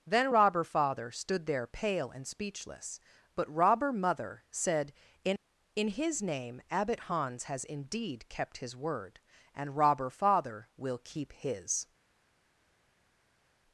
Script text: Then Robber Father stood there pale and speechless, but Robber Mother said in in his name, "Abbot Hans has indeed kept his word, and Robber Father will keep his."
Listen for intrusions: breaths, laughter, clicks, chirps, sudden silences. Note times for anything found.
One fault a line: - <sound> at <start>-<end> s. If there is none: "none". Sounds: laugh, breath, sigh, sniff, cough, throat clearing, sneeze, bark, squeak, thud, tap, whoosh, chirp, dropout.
none